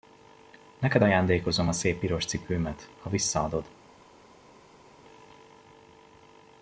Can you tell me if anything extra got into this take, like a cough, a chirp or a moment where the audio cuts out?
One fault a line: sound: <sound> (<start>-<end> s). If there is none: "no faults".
no faults